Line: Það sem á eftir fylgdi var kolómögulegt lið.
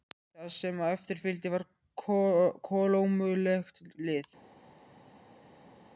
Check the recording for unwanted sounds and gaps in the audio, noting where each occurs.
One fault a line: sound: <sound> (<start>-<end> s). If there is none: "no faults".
no faults